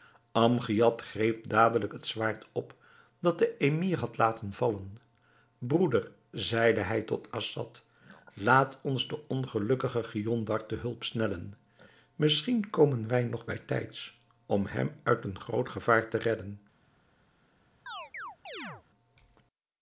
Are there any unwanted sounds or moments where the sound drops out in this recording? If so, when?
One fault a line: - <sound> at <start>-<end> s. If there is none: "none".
- chirp at 17.9-18.8 s